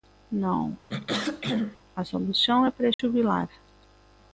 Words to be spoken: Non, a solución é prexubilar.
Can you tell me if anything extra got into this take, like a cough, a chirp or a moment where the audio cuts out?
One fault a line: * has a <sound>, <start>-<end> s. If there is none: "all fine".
* has a throat clearing, 0.9-1.8 s
* has a dropout, 2.9-3.0 s